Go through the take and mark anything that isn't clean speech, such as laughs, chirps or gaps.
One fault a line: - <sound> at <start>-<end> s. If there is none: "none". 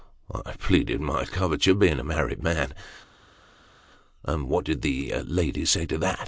none